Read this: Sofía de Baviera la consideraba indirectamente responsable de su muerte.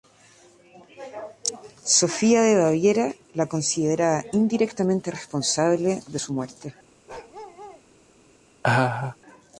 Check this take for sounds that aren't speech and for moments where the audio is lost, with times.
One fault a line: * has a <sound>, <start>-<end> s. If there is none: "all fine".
* has a bark, 7.1-7.8 s
* has a laugh, 8.6-9.2 s